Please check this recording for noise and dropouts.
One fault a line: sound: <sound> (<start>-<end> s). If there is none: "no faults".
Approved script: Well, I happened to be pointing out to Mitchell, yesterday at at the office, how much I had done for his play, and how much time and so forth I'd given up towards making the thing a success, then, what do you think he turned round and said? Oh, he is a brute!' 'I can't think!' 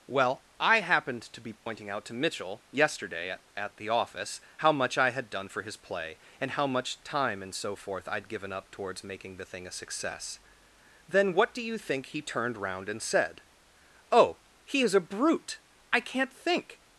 sound: dropout (1.6-1.7 s)